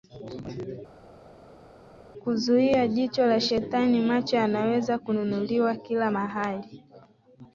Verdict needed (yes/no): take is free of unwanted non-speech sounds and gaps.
yes